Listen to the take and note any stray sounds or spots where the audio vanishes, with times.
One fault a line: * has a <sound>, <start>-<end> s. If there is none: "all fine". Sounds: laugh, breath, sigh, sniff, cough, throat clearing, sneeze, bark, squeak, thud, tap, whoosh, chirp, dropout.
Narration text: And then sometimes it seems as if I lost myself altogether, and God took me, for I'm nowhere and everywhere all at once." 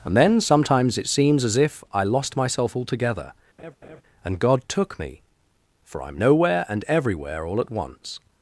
* has a laugh, 3.6-4.0 s